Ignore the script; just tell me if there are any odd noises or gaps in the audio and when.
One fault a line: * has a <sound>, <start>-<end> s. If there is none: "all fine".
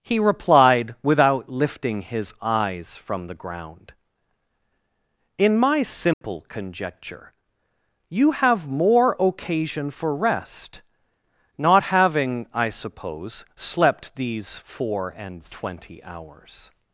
* has a dropout, 6.1-6.2 s